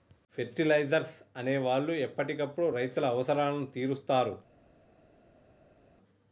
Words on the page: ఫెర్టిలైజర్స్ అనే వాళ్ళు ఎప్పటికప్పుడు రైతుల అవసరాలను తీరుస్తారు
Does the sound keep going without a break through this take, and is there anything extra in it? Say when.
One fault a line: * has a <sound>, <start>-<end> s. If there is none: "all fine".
all fine